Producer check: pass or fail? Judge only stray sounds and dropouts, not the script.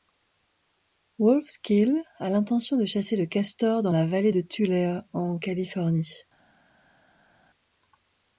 pass